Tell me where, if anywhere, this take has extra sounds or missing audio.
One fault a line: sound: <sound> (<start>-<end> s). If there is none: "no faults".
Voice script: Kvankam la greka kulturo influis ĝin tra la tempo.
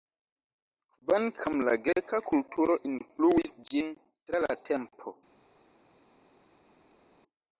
no faults